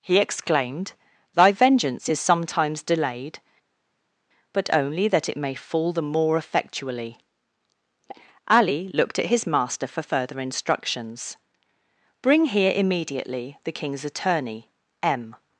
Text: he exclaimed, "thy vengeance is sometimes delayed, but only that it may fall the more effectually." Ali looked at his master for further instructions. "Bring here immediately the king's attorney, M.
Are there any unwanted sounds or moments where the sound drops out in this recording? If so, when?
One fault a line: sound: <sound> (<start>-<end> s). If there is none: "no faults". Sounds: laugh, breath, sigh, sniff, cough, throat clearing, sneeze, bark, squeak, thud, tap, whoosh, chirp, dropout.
no faults